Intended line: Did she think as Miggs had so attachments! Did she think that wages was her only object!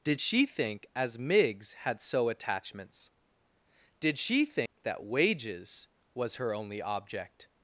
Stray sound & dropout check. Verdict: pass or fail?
fail